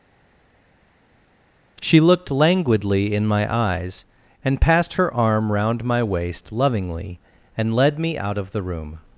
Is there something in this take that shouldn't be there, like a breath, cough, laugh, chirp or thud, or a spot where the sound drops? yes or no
no